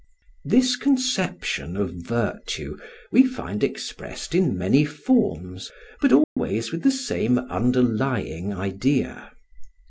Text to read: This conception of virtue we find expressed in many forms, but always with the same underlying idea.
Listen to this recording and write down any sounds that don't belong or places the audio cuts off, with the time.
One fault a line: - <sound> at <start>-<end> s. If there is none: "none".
- dropout at 6.2-6.4 s